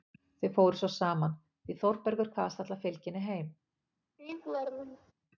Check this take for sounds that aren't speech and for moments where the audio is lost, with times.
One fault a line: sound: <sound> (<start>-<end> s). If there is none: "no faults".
sound: laugh (4.2-5.1 s)